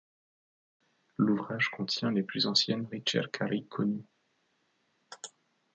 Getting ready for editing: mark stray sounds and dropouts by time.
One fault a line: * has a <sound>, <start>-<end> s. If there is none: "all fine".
all fine